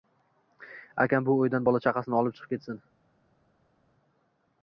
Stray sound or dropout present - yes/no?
no